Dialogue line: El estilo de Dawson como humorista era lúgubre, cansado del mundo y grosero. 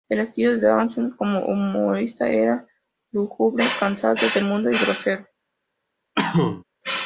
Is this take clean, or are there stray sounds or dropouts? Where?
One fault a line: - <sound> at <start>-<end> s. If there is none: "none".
- cough at 6.1-6.6 s